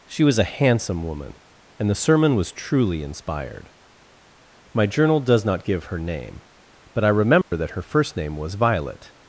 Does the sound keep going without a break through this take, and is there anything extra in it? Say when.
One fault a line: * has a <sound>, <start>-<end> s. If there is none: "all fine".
* has a dropout, 7.4-7.5 s